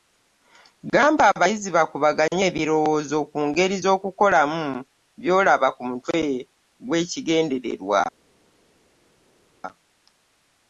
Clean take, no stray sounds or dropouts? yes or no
yes